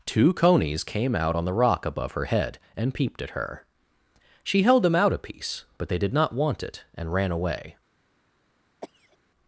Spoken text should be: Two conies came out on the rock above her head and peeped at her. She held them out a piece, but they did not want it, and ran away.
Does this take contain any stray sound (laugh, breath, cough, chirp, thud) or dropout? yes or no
yes